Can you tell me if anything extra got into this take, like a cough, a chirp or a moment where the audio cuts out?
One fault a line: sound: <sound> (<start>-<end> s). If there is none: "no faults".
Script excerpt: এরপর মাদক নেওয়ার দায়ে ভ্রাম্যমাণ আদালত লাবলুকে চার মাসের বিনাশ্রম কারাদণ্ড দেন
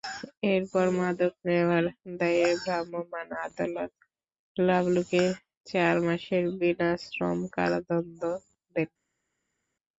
no faults